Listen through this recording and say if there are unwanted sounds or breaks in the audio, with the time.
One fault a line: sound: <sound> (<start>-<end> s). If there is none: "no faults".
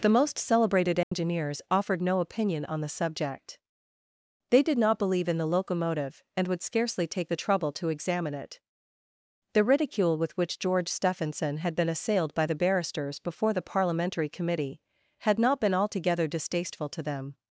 sound: dropout (1.0-1.1 s)